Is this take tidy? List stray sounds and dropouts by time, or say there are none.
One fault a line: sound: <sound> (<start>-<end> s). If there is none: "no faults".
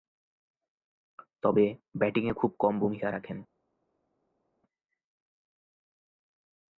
no faults